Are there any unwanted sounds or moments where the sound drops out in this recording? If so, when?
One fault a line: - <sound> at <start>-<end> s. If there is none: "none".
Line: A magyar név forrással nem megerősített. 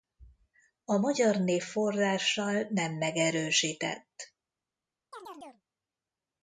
- chirp at 5.1-5.6 s